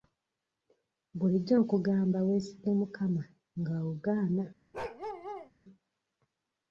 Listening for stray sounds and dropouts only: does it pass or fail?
fail